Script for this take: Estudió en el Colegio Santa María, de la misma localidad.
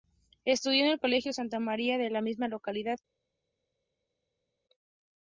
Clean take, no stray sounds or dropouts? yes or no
yes